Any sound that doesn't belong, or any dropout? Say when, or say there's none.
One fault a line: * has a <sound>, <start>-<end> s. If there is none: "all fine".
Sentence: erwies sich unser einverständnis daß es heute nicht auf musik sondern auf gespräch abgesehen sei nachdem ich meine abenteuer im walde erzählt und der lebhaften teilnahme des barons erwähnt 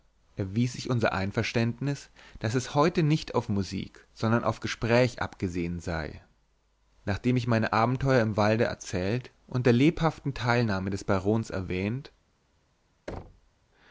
* has a thud, 13.1-13.5 s